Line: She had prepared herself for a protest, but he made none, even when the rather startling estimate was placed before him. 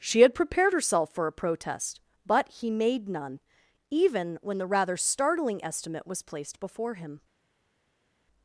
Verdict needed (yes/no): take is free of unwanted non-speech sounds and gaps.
yes